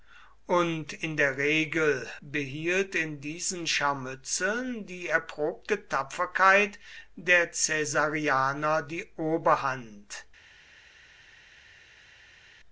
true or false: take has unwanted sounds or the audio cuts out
false